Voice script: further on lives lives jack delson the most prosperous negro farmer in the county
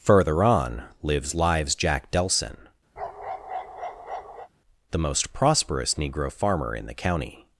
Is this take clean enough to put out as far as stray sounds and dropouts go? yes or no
no